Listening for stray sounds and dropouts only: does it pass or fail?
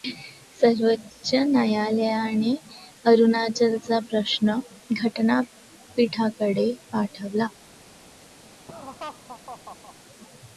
fail